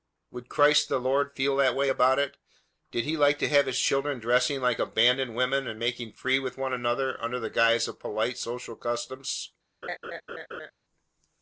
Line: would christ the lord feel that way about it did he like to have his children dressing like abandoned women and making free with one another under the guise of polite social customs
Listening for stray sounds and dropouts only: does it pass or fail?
fail